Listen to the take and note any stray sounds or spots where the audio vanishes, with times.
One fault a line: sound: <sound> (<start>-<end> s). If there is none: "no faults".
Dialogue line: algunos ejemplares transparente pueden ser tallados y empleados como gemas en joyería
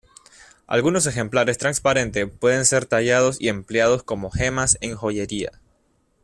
no faults